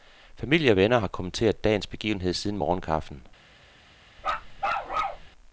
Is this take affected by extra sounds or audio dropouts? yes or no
yes